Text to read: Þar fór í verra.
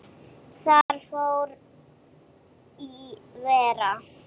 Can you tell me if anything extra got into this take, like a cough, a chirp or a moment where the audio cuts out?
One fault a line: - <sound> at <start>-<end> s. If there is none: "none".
- dropout at 0.8-0.9 s